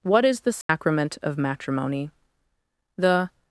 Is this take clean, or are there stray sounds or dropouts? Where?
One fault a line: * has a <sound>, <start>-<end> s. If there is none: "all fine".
* has a dropout, 0.6-0.7 s